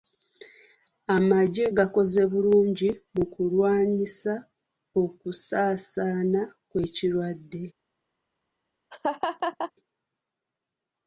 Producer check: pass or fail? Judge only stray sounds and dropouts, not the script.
fail